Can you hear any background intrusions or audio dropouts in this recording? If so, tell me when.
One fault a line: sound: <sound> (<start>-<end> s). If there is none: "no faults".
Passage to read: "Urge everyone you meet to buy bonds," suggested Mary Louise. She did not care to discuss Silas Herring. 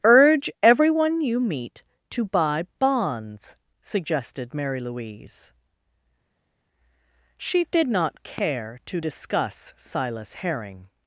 no faults